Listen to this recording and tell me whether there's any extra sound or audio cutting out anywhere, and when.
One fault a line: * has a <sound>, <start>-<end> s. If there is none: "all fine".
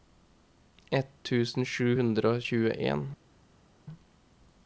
all fine